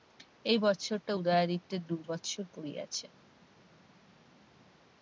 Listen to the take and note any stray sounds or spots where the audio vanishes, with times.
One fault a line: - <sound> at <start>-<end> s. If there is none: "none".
none